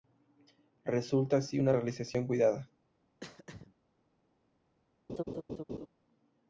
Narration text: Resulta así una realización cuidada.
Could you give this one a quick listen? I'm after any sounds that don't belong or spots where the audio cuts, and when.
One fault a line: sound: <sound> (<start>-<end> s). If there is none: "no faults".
sound: throat clearing (3.2-3.7 s)
sound: laugh (5.1-5.9 s)